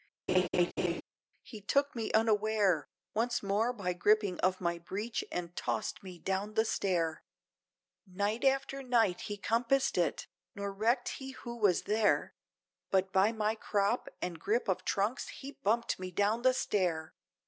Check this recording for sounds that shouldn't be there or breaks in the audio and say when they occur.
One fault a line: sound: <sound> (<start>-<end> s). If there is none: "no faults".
sound: laugh (0.3-1.0 s)